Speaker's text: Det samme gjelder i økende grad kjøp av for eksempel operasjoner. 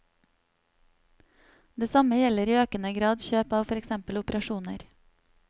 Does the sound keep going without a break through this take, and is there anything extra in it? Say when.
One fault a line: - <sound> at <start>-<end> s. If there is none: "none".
none